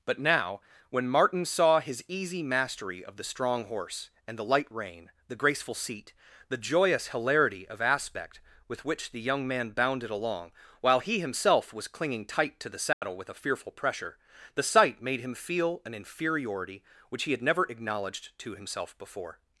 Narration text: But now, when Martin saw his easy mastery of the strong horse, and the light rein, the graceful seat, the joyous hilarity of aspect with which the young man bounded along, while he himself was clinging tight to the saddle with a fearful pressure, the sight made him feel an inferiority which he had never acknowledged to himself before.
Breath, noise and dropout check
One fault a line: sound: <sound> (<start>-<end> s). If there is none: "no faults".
sound: dropout (12.9-13.0 s)